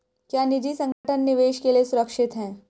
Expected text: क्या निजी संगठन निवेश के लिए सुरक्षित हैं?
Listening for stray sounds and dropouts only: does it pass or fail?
fail